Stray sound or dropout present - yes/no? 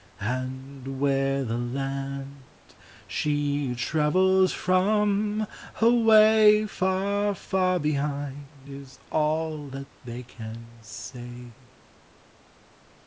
no